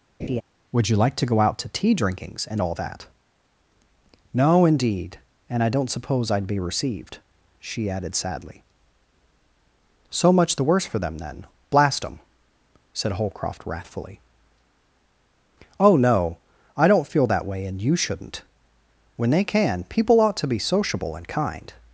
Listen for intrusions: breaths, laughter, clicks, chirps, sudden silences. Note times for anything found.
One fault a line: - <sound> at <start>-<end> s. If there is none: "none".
- laugh at 0.2-0.4 s